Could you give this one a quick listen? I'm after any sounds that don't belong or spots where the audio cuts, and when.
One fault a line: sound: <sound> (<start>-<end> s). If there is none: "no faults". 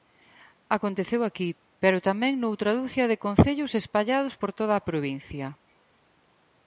no faults